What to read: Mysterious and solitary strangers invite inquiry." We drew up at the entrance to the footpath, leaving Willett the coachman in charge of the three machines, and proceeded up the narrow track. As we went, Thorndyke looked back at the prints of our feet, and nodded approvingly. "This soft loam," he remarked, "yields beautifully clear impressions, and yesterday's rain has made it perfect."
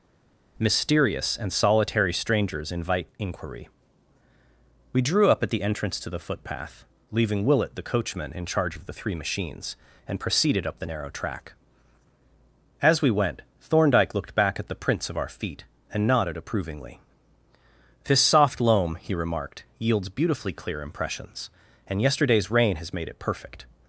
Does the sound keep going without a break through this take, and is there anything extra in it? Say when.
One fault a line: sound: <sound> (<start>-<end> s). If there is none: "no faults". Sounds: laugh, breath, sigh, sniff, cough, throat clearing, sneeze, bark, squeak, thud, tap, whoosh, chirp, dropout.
no faults